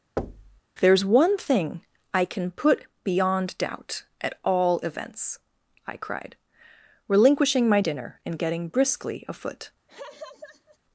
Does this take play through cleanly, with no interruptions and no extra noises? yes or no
no